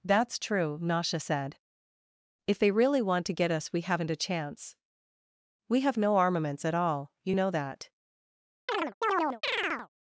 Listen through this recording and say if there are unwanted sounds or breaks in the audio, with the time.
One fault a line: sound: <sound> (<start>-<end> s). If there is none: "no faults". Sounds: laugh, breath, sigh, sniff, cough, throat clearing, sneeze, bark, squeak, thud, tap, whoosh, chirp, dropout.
sound: chirp (8.7-9.9 s)